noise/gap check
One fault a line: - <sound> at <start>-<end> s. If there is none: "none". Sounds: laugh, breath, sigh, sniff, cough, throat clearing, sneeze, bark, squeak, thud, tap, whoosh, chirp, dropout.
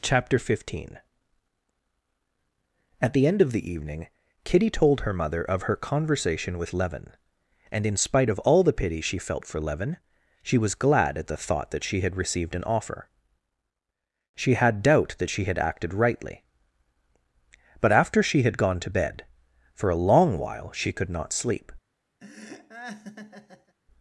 - laugh at 22.2-23.8 s